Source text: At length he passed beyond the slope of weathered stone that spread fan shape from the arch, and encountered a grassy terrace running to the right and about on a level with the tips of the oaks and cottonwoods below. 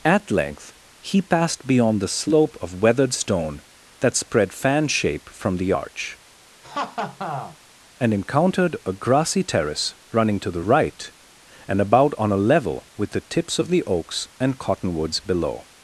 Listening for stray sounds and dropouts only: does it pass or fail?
fail